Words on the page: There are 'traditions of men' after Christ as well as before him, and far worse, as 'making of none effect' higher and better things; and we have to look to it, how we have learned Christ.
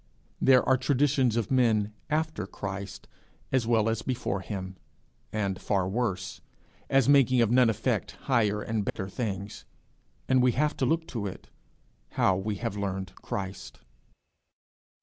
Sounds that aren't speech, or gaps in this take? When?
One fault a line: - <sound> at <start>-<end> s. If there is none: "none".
- dropout at 8.9-9.0 s